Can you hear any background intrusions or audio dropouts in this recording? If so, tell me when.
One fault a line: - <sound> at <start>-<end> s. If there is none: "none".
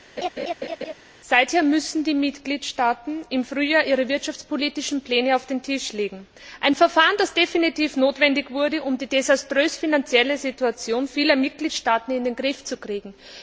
- laugh at 0.2-0.9 s